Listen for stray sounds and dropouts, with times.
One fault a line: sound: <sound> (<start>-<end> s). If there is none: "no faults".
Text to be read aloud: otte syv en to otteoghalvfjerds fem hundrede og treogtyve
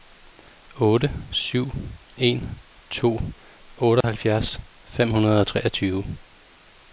sound: dropout (4.0-4.0 s)